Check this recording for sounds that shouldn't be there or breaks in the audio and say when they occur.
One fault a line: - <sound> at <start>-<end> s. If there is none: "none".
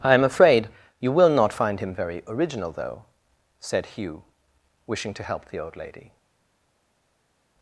none